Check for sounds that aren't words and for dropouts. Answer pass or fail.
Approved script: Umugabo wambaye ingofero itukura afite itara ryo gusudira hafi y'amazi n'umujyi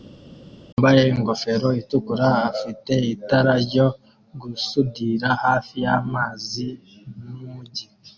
pass